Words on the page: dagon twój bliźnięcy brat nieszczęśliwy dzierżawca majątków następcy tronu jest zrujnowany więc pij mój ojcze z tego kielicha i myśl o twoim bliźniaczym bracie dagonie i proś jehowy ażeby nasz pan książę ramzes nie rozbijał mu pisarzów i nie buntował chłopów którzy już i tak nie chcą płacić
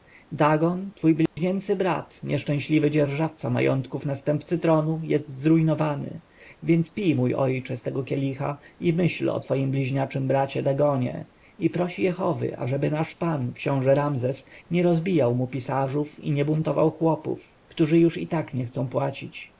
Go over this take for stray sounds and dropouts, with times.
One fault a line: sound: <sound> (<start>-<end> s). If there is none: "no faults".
sound: dropout (1.3-1.4 s)